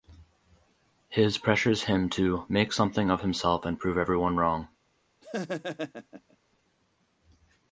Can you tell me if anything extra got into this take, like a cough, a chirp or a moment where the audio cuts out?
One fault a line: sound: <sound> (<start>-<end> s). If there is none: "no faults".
sound: laugh (5.2-6.4 s)